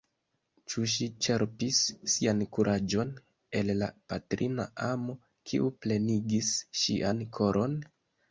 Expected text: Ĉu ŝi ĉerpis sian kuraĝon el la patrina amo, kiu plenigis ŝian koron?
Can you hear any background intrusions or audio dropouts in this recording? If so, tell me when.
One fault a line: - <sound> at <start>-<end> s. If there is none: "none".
none